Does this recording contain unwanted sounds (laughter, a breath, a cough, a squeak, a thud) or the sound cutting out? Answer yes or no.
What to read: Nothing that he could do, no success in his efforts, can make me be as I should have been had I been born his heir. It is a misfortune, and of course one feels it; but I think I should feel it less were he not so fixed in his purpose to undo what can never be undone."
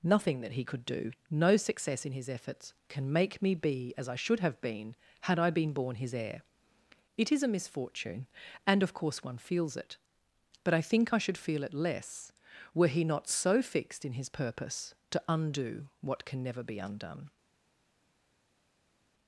no